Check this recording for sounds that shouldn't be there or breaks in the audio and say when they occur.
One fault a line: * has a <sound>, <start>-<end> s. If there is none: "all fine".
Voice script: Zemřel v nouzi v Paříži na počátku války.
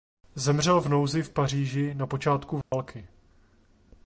* has a dropout, 2.6-2.7 s